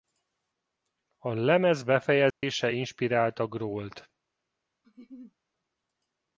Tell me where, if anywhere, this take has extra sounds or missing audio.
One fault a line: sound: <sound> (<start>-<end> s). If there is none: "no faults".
sound: dropout (2.3-2.4 s)
sound: laugh (4.8-5.4 s)